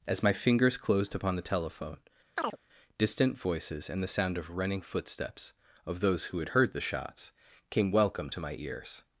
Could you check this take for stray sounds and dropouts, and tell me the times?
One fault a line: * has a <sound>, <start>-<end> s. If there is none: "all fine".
* has a chirp, 2.4-2.6 s